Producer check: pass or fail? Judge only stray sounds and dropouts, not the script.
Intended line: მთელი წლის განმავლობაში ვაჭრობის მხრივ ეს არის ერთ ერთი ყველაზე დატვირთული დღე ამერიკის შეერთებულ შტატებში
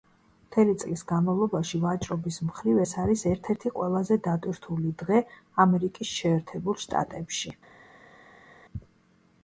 pass